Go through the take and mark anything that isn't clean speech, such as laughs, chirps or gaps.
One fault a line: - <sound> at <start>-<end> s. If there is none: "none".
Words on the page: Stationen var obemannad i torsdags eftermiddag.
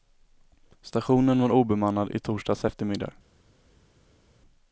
none